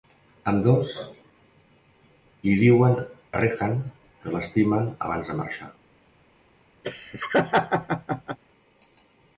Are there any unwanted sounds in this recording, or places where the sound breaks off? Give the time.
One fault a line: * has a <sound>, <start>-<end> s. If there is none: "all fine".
* has a dropout, 3.3-3.3 s
* has a laugh, 6.8-8.4 s